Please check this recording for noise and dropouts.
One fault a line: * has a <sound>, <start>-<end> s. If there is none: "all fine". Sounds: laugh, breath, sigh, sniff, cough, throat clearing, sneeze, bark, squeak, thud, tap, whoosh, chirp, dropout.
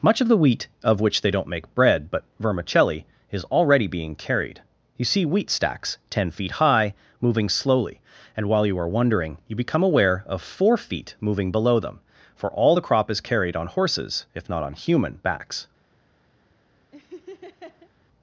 * has a laugh, 16.9-17.9 s